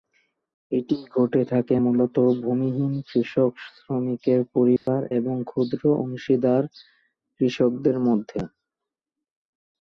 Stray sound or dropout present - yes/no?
yes